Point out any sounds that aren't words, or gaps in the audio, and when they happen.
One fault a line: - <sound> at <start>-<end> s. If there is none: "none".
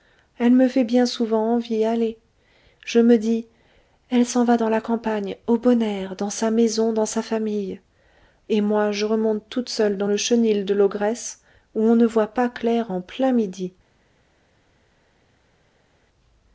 none